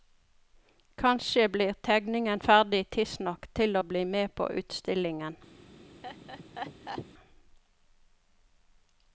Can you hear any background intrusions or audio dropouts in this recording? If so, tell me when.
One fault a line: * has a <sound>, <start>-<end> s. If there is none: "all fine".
* has a laugh, 6.0-7.1 s